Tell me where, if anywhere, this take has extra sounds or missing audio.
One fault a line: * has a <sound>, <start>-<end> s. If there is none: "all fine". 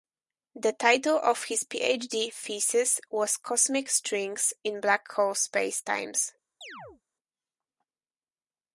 * has a chirp, 6.6-7.0 s